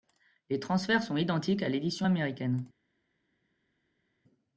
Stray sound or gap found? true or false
false